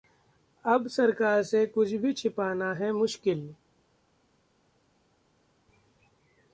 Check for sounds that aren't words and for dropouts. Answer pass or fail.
pass